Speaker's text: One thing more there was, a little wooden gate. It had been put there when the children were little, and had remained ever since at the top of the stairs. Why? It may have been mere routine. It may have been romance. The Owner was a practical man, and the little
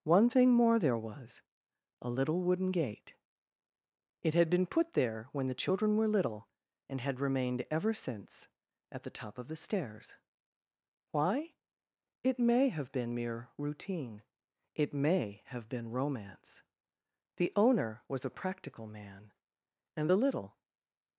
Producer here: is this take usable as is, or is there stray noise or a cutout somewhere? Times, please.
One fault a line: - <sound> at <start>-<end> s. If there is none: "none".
none